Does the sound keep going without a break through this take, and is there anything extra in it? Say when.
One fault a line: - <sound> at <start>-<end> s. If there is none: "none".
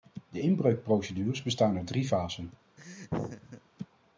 - laugh at 2.8-3.6 s